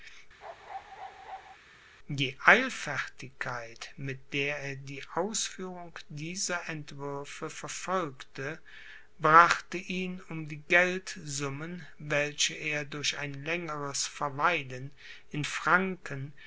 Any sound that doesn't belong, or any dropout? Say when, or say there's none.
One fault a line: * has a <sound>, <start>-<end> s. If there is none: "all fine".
* has a bark, 0.4-1.6 s